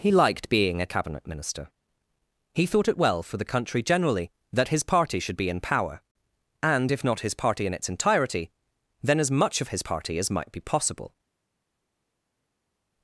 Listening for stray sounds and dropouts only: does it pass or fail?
pass